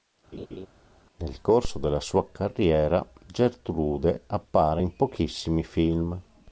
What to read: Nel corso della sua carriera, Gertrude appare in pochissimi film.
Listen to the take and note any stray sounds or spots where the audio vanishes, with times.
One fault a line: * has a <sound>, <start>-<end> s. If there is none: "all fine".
* has a laugh, 0.3-0.7 s